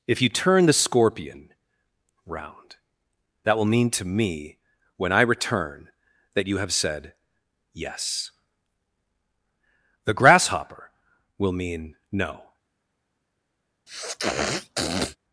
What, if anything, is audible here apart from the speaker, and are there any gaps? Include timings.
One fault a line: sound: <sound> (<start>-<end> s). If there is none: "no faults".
sound: sniff (13.9-15.2 s)